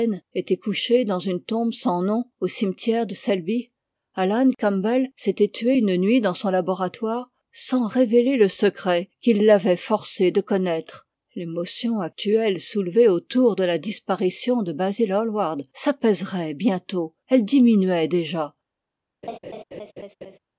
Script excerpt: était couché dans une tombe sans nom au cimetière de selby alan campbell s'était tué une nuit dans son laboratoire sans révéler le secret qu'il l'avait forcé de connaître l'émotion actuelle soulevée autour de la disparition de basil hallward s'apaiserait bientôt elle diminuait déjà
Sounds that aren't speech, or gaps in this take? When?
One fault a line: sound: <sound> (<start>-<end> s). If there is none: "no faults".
sound: laugh (19.2-20.4 s)